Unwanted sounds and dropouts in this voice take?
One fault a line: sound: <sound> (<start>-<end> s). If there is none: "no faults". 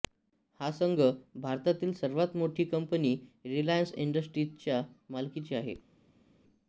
no faults